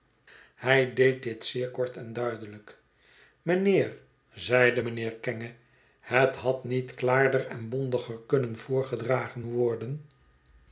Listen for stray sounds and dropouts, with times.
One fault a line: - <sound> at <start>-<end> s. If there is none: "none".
none